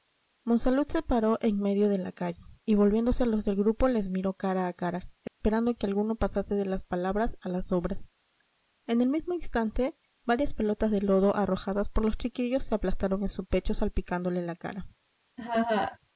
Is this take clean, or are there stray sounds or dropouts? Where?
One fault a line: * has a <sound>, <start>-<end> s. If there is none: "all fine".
* has a dropout, 5.3-5.4 s
* has a laugh, 15.4-16.0 s